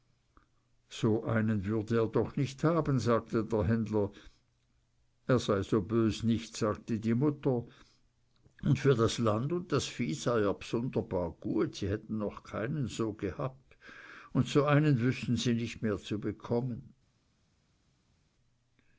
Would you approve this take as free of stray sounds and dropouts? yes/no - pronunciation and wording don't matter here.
yes